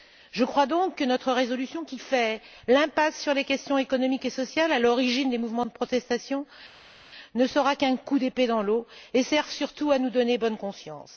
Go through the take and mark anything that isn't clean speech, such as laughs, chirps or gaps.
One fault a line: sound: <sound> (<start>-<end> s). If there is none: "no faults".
no faults